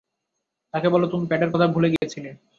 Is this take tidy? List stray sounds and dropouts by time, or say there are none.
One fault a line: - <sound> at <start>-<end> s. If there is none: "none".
- dropout at 2.0-2.0 s